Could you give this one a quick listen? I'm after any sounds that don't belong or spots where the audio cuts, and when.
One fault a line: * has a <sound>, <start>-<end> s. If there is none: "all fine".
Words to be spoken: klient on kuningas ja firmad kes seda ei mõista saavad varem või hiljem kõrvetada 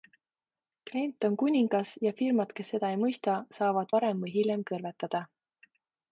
all fine